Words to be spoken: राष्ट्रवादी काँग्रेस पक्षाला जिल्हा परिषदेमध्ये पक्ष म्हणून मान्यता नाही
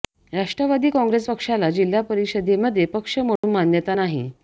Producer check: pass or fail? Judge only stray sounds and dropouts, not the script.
fail